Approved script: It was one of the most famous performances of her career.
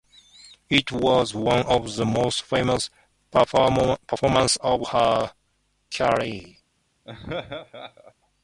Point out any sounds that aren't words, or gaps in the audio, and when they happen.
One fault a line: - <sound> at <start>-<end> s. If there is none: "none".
- laugh at 7.0-8.1 s